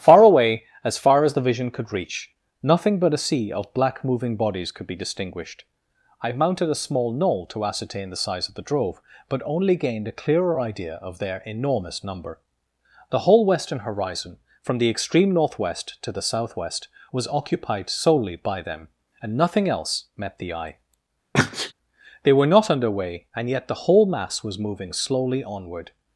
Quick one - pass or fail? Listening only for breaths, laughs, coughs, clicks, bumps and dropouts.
fail